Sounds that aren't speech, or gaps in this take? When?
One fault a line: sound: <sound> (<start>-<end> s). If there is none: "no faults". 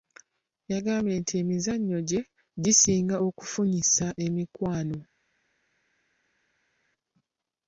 no faults